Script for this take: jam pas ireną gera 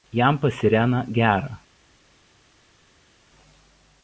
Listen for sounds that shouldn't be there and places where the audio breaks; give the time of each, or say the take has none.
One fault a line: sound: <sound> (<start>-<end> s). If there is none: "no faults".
no faults